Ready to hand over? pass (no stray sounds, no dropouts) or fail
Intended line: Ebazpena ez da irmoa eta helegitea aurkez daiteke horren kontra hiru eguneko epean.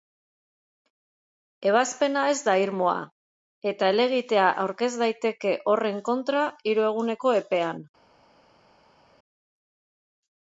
pass